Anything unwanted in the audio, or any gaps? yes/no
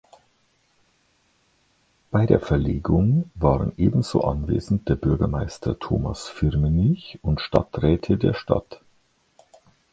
no